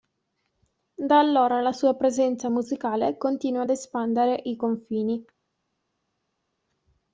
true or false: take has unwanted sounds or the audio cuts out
false